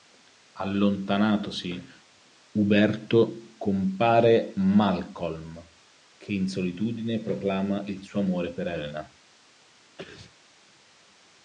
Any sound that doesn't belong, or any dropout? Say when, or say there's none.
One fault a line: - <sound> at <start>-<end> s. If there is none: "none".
- sneeze at 10.0-10.3 s